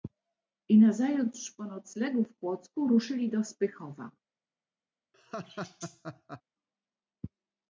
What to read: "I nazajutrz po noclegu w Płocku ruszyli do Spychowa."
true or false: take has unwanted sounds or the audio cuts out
true